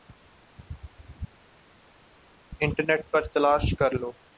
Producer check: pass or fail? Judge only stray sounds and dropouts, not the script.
pass